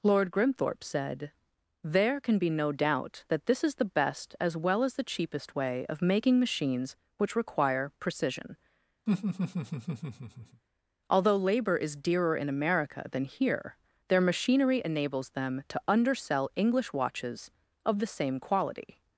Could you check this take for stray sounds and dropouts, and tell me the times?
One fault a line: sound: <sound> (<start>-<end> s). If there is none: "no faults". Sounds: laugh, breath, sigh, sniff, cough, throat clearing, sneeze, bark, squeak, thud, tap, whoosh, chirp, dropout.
sound: laugh (9.1-10.6 s)